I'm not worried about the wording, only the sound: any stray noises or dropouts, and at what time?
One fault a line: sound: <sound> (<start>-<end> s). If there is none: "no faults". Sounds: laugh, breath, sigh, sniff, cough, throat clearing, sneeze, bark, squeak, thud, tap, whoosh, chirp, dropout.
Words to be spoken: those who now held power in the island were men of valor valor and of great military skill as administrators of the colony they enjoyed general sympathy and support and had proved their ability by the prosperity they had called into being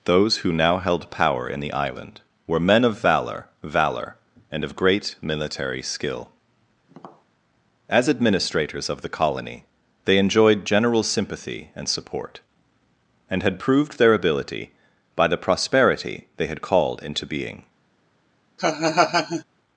sound: tap (6.9-7.3 s)
sound: laugh (18.6-19.4 s)